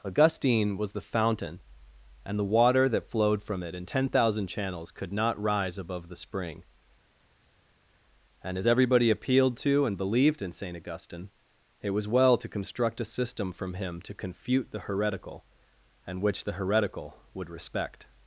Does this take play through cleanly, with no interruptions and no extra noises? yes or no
yes